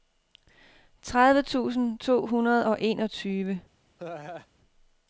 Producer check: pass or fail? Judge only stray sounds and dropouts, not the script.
fail